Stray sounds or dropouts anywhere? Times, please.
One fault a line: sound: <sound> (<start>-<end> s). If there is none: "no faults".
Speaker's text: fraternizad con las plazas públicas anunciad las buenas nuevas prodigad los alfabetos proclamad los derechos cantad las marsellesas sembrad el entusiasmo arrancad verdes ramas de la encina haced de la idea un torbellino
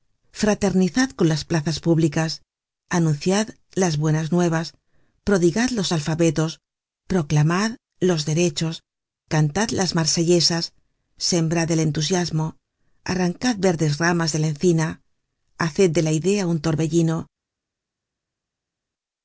no faults